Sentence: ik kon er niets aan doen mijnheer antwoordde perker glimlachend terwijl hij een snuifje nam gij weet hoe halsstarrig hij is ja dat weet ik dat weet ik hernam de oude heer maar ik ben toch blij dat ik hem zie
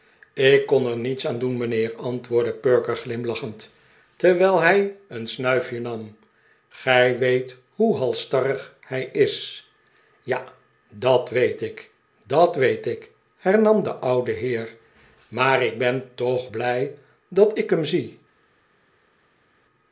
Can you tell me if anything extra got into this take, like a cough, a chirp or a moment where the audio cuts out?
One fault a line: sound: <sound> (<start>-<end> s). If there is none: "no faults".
no faults